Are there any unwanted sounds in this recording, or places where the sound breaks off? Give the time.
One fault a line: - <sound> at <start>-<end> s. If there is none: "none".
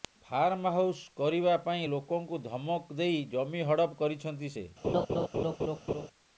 - laugh at 4.8-6.1 s